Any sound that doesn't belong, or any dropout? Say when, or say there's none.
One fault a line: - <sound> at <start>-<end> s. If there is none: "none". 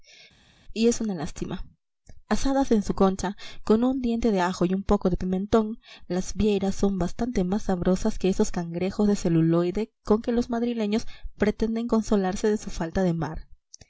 none